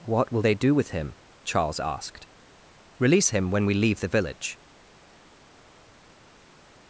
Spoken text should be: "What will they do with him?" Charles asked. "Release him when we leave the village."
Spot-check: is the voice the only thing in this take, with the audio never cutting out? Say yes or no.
yes